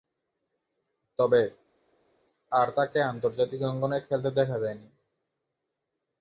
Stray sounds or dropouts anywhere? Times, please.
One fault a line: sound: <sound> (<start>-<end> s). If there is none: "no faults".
no faults